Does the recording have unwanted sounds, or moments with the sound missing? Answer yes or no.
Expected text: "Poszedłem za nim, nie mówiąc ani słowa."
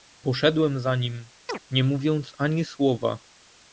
yes